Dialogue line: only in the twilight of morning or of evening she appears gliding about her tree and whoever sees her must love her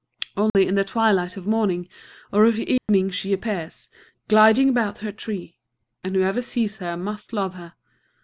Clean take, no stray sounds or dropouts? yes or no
no